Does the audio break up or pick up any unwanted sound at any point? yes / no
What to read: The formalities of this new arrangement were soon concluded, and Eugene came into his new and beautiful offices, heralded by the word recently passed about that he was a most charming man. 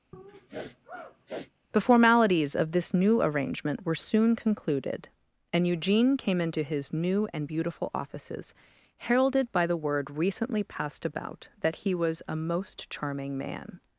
yes